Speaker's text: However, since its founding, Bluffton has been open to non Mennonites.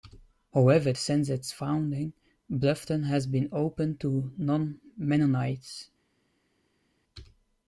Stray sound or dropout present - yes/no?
no